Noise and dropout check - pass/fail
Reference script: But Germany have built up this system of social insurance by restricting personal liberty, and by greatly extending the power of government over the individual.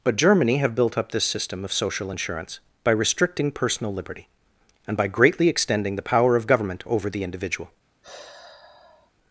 fail